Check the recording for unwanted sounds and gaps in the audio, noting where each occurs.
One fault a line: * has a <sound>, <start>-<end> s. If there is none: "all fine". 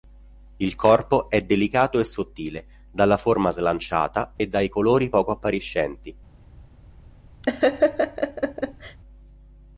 * has a dropout, 4.4-4.4 s
* has a laugh, 7.4-9.0 s